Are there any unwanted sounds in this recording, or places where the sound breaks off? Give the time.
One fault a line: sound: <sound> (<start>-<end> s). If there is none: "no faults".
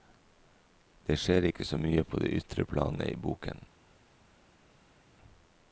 no faults